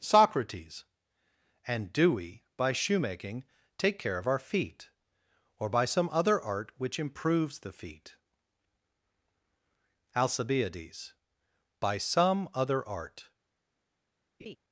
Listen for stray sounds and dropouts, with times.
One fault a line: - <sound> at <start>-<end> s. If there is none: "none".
- laugh at 14.4-14.6 s